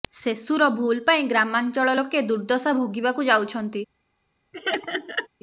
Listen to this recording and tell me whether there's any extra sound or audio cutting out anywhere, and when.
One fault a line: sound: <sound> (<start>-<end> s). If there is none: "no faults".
sound: laugh (4.5-5.3 s)